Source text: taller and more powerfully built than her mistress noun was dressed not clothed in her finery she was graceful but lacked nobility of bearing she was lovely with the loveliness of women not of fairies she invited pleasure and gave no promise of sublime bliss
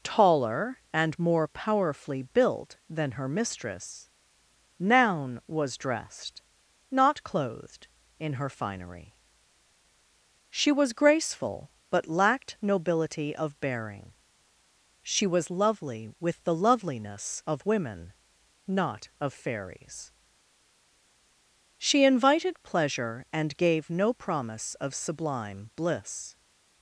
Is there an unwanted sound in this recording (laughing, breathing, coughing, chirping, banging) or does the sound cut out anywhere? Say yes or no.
no